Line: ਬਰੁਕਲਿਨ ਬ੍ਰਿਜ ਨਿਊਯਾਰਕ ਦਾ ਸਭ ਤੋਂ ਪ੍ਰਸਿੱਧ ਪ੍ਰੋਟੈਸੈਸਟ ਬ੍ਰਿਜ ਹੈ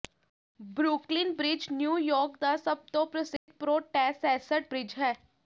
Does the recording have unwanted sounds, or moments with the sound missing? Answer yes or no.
yes